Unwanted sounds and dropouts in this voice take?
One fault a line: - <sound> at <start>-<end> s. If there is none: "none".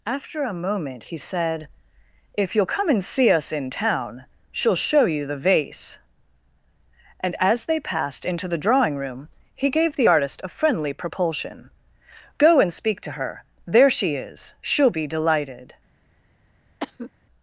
- cough at 16.8-17.1 s